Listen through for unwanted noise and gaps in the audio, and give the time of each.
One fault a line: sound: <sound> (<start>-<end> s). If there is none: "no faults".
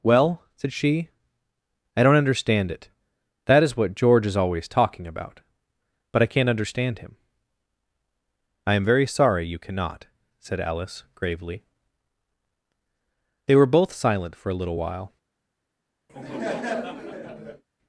sound: laugh (16.1-17.6 s)